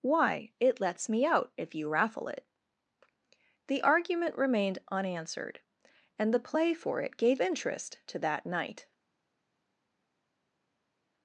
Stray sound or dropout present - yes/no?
no